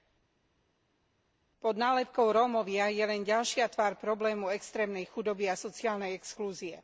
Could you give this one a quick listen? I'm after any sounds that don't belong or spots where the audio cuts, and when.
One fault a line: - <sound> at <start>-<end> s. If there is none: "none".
none